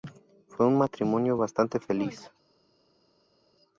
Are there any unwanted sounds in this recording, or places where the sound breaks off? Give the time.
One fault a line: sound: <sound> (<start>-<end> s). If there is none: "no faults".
no faults